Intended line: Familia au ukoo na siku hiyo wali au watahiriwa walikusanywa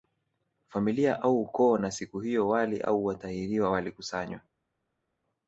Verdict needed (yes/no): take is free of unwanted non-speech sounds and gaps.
yes